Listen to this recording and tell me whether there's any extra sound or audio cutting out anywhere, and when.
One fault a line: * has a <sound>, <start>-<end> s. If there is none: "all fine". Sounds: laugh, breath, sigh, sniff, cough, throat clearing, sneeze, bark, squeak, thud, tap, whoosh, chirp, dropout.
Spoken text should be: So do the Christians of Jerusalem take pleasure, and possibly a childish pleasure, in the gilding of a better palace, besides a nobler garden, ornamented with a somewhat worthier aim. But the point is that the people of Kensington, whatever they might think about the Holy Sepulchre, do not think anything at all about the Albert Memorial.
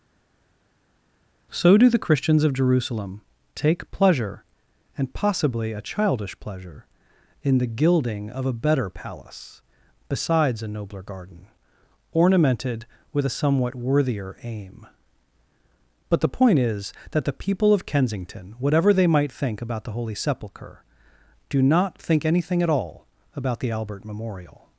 all fine